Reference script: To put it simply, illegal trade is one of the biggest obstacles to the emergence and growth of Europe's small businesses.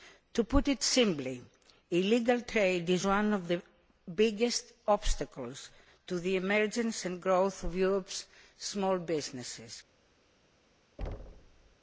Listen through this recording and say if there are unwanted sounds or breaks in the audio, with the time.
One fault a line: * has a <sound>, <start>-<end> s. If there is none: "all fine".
* has a thud, 11.0-11.8 s